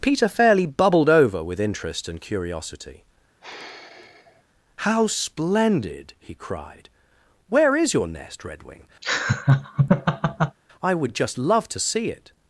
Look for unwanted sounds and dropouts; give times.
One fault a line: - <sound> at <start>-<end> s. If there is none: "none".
- sigh at 3.4-4.4 s
- laugh at 9.0-10.6 s